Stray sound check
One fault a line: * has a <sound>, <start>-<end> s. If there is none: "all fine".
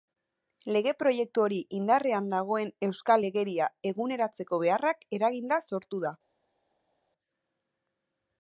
all fine